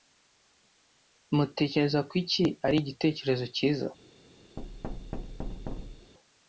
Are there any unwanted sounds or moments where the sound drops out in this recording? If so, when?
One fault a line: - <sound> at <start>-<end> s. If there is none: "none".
- thud at 4.6-6.1 s